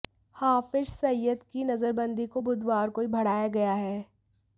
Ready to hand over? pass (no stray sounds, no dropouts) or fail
pass